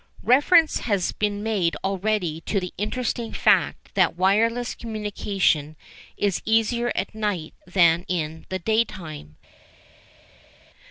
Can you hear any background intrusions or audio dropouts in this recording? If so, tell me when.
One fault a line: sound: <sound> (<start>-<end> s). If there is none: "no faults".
no faults